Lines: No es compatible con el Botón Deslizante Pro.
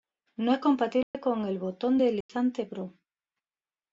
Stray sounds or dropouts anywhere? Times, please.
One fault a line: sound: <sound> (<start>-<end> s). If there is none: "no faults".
sound: dropout (1.0-1.1 s)
sound: dropout (2.2-2.3 s)